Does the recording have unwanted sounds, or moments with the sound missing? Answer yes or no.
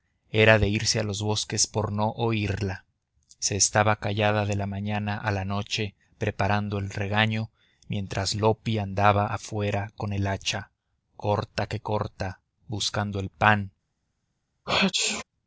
yes